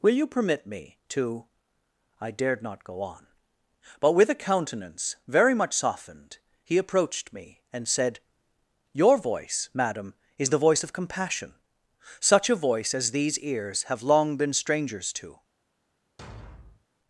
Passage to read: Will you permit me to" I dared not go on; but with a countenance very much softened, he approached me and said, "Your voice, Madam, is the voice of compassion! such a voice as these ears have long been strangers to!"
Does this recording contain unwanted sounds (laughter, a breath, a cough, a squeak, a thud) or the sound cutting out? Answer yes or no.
yes